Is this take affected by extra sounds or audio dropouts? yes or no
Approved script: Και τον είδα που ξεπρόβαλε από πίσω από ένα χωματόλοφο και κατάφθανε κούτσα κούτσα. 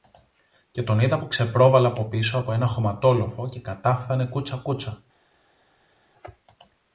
no